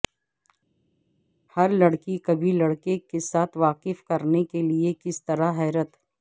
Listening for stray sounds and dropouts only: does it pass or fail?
pass